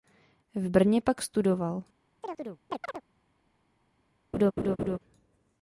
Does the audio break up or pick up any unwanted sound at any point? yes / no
yes